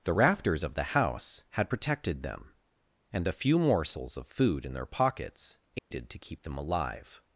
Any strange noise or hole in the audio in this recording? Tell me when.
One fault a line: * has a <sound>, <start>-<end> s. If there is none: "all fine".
* has a dropout, 5.8-5.9 s